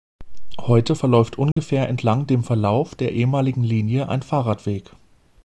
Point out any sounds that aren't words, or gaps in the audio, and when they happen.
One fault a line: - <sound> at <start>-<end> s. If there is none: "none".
- dropout at 1.5-1.6 s